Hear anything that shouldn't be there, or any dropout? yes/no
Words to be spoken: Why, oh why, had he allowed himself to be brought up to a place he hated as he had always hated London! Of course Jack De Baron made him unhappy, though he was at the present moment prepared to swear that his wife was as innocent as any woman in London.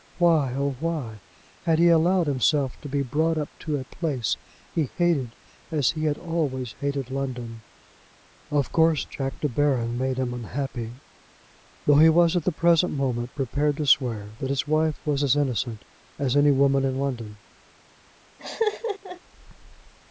yes